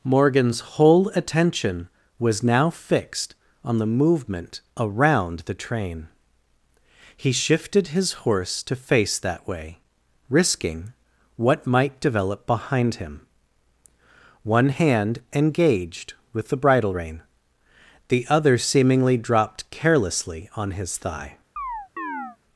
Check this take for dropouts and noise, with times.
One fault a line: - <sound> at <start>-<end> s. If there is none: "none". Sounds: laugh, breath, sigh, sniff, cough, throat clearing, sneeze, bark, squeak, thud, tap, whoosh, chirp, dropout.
- chirp at 21.6-22.4 s